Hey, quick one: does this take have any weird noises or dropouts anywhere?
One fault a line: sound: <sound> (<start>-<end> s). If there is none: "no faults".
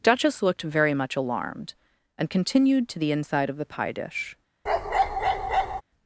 sound: bark (4.7-5.8 s)